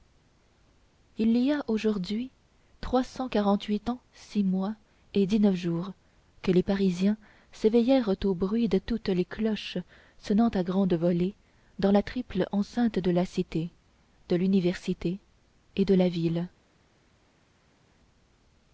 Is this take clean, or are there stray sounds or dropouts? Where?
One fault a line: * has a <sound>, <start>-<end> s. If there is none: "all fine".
all fine